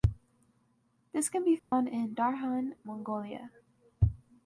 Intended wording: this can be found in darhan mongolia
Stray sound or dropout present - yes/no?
yes